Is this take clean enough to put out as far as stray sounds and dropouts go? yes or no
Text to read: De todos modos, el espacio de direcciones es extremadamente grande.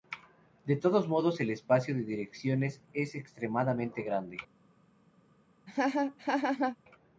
no